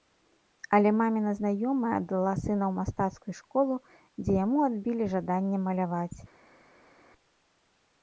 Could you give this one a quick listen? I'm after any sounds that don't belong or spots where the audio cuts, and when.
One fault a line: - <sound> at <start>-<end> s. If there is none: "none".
none